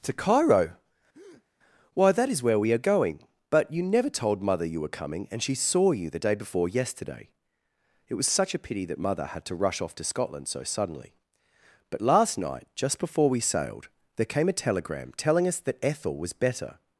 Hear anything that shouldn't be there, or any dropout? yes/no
yes